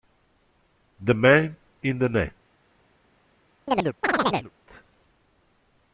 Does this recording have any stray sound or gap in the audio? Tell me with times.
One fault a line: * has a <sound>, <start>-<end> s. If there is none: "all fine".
* has a chirp, 3.7-4.5 s